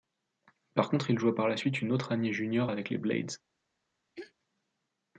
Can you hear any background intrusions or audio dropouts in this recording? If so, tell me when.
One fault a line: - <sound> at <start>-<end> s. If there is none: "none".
- throat clearing at 4.2-4.3 s